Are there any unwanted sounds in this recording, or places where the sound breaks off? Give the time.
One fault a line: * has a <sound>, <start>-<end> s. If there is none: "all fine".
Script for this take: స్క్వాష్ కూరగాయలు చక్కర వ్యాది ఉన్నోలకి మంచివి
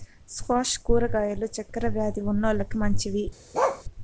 * has a bark, 3.5-3.8 s